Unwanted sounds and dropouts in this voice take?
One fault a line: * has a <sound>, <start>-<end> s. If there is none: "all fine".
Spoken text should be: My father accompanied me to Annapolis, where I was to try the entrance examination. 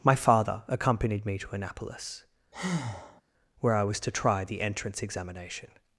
* has a breath, 2.5-3.2 s